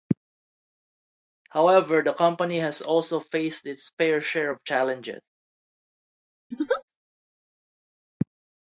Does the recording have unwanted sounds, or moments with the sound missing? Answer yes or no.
yes